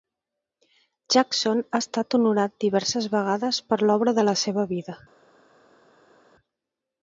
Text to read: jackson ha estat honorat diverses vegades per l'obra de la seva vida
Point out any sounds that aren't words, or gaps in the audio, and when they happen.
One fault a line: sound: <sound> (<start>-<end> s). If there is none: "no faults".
no faults